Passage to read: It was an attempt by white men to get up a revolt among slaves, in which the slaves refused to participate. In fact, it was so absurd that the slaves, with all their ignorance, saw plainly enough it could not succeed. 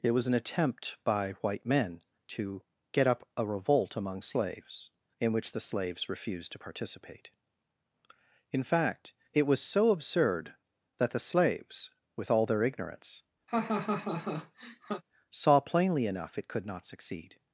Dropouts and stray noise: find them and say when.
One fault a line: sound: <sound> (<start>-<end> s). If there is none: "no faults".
sound: laugh (13.5-15.0 s)